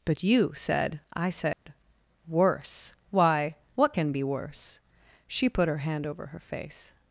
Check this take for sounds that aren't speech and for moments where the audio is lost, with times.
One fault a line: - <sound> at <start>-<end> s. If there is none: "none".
- dropout at 1.5-1.7 s